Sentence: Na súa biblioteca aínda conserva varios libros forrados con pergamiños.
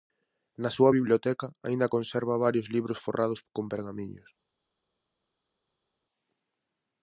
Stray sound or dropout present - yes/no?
no